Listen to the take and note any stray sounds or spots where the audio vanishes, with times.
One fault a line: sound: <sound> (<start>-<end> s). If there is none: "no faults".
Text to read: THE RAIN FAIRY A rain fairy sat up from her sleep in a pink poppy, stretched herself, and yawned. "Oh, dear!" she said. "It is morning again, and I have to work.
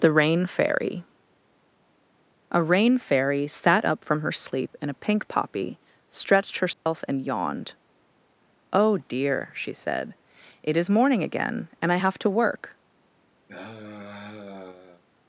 sound: dropout (6.7-6.9 s)
sound: sigh (13.5-15.0 s)